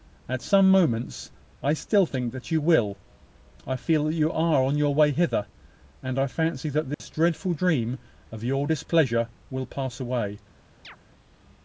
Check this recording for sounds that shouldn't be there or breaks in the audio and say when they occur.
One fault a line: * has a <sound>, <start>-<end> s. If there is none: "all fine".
* has a dropout, 6.9-7.0 s
* has a chirp, 10.8-11.0 s